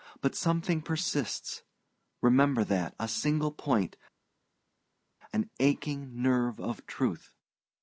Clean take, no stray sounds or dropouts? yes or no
yes